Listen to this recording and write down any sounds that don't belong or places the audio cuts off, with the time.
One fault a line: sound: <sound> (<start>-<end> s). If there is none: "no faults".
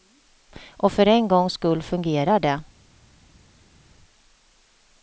no faults